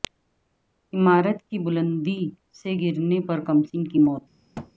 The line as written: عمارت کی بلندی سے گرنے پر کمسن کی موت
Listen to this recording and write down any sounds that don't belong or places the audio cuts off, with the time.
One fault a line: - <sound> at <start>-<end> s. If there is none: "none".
- thud at 4.5-4.7 s